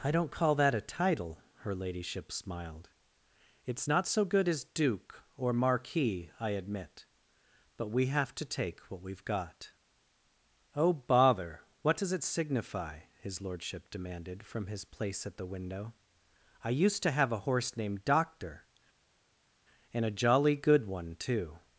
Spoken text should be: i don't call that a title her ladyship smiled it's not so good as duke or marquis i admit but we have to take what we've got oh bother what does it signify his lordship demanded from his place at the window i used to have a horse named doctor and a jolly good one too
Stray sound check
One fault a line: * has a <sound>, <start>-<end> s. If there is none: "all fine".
all fine